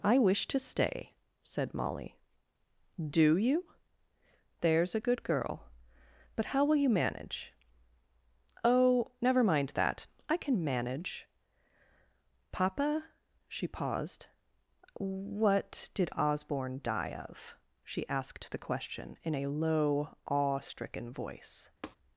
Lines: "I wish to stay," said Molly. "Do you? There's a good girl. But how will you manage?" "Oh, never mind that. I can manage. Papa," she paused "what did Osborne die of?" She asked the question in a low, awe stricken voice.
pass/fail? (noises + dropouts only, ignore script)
fail